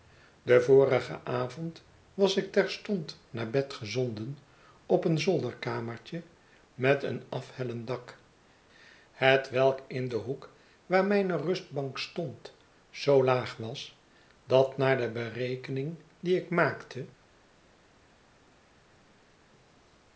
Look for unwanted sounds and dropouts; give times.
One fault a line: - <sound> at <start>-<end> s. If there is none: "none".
none